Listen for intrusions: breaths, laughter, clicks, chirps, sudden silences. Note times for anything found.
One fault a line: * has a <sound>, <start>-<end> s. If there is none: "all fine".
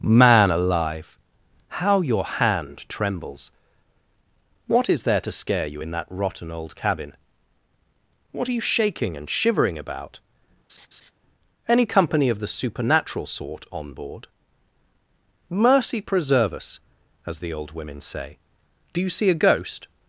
* has a laugh, 10.7-11.1 s